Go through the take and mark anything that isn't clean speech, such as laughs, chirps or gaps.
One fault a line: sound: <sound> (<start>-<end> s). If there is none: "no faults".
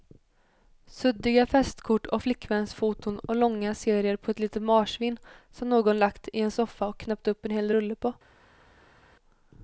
no faults